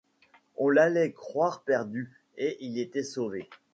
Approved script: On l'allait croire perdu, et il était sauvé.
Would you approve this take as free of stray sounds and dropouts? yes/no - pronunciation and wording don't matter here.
yes